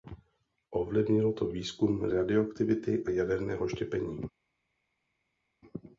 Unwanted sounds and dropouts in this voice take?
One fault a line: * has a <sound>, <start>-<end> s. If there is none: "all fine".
all fine